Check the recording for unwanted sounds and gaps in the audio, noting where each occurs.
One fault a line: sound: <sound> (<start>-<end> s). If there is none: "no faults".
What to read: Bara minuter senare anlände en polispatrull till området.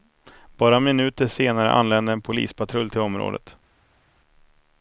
no faults